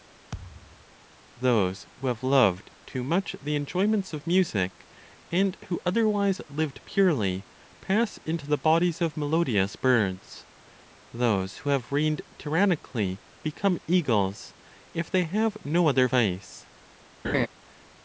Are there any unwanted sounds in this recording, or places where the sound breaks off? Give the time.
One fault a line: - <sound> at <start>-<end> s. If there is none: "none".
- thud at 0.3-0.9 s
- laugh at 17.2-17.5 s